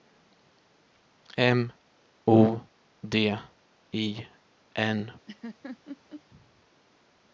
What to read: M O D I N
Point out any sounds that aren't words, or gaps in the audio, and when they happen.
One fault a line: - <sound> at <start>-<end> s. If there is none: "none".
- laugh at 5.3-6.2 s